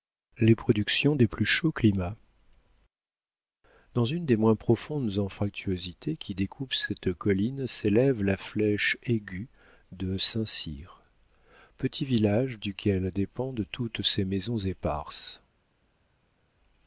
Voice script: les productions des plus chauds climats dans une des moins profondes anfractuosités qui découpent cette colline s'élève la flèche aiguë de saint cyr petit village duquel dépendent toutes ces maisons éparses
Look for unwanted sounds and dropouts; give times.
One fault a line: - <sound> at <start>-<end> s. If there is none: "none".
none